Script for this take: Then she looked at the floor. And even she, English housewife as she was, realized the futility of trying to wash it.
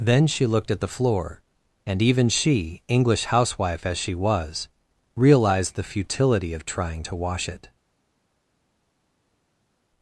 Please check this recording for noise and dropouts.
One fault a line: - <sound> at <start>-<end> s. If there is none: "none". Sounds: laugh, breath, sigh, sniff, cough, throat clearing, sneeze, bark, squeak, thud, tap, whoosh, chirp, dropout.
none